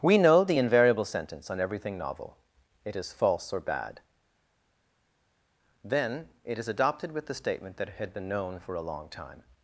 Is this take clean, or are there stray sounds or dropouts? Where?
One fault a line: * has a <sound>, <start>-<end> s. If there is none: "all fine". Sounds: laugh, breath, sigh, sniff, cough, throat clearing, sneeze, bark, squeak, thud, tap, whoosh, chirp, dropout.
all fine